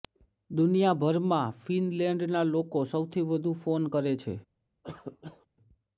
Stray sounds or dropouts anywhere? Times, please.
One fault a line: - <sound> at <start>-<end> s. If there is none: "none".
- cough at 4.8-5.5 s